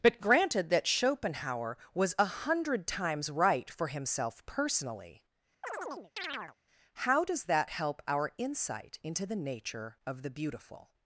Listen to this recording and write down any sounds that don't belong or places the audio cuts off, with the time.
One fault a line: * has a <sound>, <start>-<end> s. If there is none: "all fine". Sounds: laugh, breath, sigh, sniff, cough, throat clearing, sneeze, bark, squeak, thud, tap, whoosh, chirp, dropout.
* has a chirp, 5.6-6.6 s